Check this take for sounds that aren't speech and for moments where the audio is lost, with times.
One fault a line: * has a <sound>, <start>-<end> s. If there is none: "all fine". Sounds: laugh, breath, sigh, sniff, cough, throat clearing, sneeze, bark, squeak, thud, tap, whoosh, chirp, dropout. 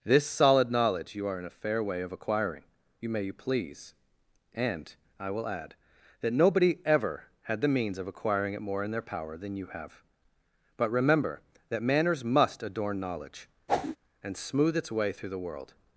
* has a whoosh, 13.7-14.0 s